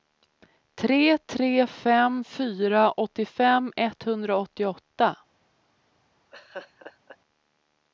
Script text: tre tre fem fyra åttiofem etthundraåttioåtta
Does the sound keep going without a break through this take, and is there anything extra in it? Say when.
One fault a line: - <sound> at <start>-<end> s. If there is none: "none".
- laugh at 6.3-7.2 s